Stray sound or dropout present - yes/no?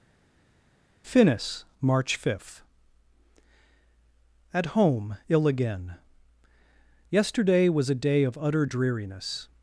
no